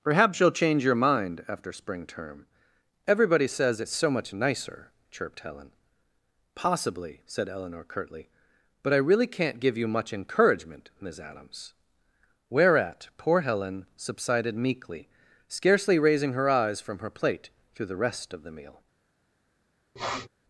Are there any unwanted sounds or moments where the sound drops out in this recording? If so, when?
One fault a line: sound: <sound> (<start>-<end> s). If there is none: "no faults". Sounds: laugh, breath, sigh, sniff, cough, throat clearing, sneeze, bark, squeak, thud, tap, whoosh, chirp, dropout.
sound: sniff (20.0-20.3 s)